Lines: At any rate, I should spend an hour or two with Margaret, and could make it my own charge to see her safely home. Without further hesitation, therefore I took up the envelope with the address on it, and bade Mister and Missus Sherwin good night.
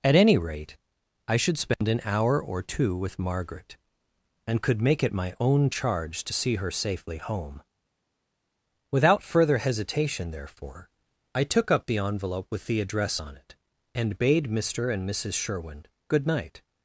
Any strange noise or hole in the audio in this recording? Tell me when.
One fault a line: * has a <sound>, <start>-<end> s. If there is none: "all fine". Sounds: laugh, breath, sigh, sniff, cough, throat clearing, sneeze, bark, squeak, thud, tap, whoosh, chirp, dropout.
all fine